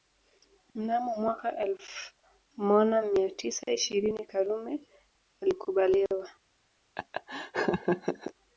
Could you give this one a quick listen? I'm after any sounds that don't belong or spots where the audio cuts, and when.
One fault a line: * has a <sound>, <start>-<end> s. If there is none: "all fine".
* has a laugh, 7.0-8.3 s